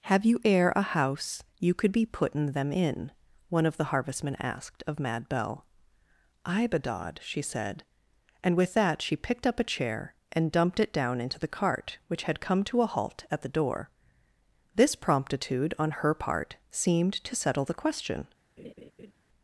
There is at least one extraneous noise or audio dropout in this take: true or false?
true